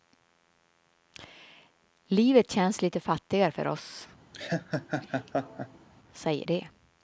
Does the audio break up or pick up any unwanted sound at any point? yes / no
yes